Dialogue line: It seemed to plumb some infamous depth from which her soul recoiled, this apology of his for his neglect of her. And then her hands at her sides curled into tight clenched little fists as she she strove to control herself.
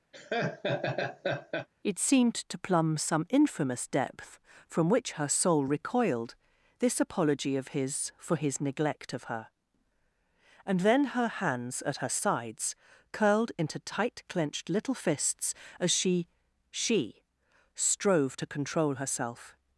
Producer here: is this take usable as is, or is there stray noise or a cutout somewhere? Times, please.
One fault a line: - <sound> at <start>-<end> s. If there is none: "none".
- laugh at 0.1-1.7 s